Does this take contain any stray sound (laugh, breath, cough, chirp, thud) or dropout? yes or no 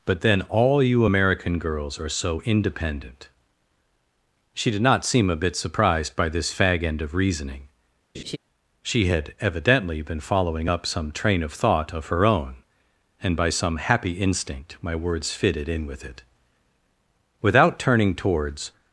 yes